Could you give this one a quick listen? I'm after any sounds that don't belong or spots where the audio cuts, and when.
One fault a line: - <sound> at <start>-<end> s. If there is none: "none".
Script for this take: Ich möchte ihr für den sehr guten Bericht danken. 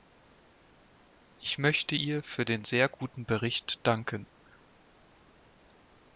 none